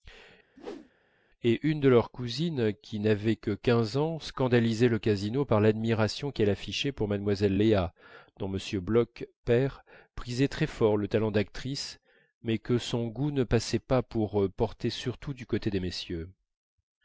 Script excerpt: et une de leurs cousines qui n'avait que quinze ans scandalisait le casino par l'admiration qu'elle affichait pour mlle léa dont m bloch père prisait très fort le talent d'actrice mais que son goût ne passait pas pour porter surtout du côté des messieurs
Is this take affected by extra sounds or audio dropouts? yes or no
yes